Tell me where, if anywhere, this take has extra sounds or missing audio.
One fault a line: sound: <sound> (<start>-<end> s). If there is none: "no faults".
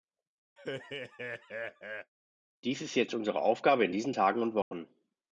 sound: laugh (0.6-2.1 s)
sound: dropout (4.6-4.7 s)